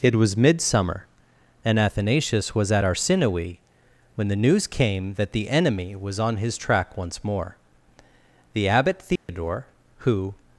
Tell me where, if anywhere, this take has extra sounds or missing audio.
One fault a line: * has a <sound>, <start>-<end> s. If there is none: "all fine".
* has a dropout, 9.2-9.3 s